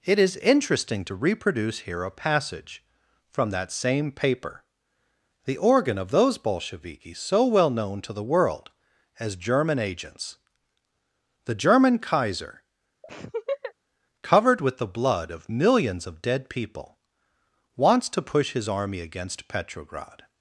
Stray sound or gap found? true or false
true